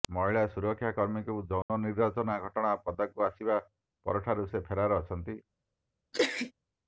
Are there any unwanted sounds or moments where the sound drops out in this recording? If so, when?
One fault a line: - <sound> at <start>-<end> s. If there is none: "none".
- dropout at 1.6-1.7 s
- sneeze at 6.1-6.5 s